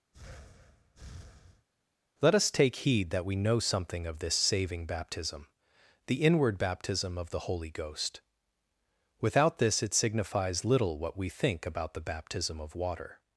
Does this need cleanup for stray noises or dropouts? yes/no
yes